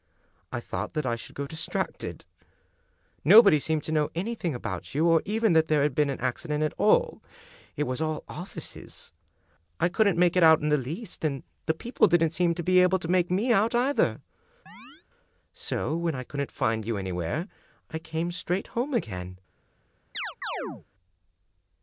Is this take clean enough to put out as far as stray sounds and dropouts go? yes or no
no